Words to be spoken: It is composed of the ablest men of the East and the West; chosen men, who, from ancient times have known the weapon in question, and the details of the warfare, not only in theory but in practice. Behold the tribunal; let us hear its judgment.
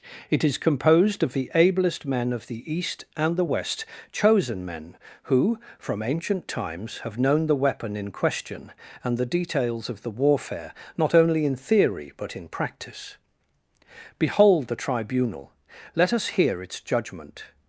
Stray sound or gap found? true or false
false